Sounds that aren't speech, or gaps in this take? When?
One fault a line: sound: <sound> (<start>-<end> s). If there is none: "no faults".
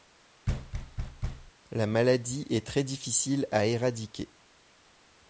sound: thud (0.5-1.5 s)